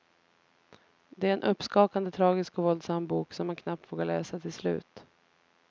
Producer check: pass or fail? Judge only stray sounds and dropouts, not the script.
pass